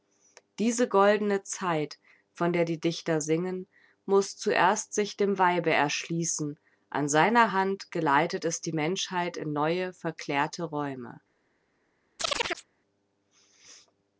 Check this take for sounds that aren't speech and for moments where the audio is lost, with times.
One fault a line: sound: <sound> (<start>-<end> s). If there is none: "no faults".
sound: chirp (12.2-12.7 s)